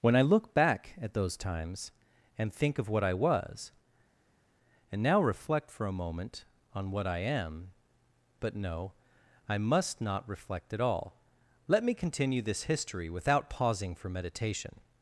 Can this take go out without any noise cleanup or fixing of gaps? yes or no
yes